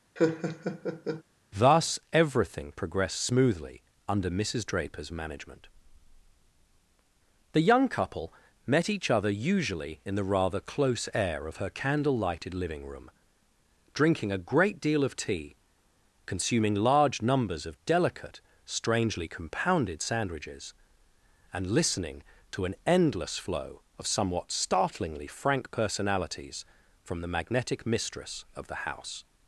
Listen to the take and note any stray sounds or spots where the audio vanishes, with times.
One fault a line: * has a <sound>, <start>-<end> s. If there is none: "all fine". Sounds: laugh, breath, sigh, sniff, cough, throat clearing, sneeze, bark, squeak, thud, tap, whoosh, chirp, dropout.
* has a laugh, 0.2-1.2 s